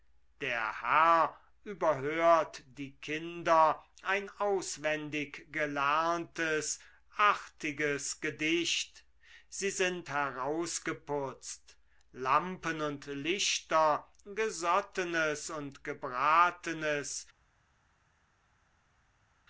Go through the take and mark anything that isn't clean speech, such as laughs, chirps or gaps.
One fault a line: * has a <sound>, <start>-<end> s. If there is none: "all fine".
all fine